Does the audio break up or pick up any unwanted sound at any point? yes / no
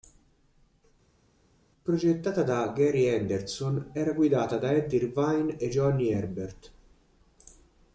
no